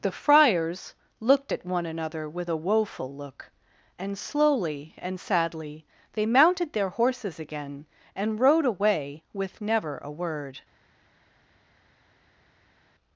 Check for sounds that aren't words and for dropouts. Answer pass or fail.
pass